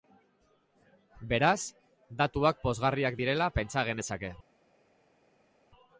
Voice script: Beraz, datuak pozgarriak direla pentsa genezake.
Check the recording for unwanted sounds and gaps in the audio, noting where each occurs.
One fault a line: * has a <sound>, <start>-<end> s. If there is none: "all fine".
all fine